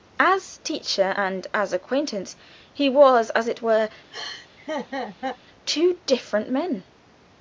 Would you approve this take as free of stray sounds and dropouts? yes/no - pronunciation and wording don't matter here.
no